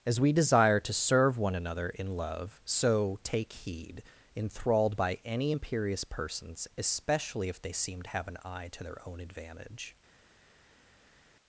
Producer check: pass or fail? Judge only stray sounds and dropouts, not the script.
pass